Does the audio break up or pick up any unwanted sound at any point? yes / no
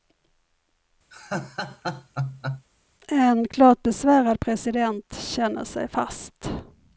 yes